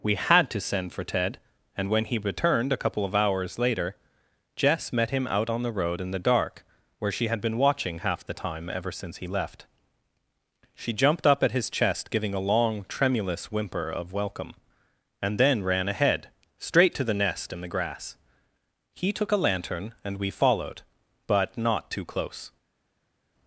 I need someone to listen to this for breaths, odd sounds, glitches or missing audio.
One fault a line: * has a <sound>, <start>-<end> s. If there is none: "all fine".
all fine